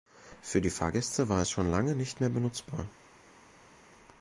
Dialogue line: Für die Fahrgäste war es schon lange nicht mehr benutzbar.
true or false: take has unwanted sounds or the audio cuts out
false